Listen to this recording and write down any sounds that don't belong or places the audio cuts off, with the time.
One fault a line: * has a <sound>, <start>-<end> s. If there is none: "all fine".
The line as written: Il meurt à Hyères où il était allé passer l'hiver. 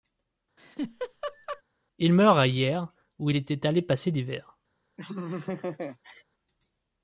* has a laugh, 0.6-1.6 s
* has a laugh, 5.0-6.2 s